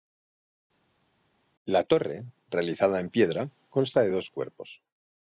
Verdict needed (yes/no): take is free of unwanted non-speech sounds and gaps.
yes